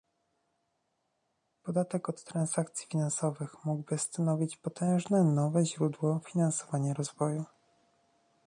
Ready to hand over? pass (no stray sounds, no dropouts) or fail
pass